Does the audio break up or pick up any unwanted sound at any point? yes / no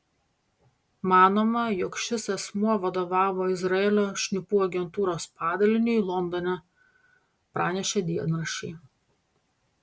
no